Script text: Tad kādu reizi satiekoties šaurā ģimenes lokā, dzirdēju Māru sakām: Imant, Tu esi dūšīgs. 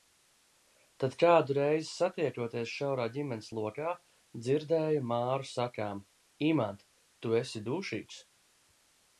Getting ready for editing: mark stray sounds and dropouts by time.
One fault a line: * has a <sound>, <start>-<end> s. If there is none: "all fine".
all fine